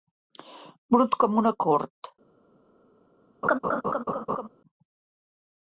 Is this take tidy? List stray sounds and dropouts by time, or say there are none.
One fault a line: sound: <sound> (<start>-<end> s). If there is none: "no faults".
sound: laugh (3.4-4.5 s)